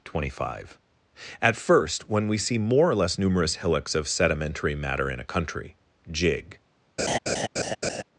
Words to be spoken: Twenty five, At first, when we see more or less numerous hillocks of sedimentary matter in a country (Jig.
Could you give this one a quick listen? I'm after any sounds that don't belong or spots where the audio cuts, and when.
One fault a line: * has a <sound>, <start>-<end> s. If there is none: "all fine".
* has a laugh, 7.0-8.0 s